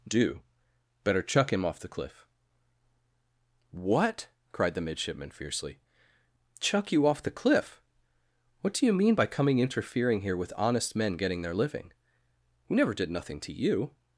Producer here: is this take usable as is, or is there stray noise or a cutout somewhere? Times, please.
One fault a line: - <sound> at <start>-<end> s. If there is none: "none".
none